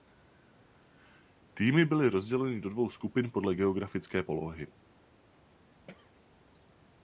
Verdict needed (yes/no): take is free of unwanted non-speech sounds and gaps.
no